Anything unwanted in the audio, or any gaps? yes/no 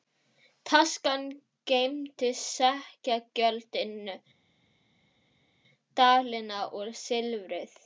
no